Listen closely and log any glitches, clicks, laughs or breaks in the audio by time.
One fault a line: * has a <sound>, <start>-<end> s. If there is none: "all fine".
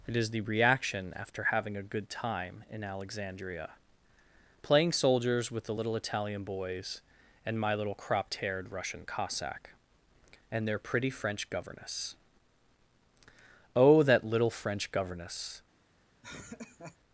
* has a laugh, 16.2-17.0 s